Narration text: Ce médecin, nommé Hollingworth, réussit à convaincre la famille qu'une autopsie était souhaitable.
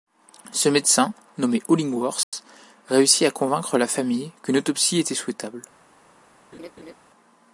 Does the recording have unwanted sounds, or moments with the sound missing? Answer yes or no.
yes